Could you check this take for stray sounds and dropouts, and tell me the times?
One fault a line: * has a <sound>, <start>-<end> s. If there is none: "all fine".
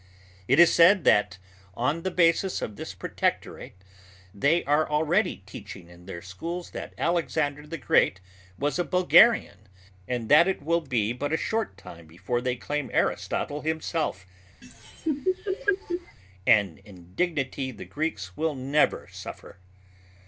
* has a laugh, 14.6-16.2 s